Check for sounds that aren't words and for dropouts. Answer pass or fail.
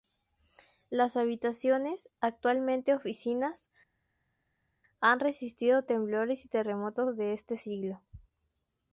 pass